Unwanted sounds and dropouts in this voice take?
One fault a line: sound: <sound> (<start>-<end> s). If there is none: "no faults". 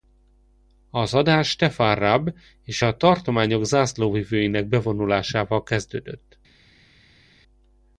no faults